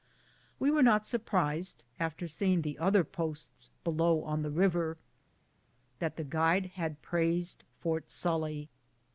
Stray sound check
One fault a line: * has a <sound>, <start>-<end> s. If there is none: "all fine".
all fine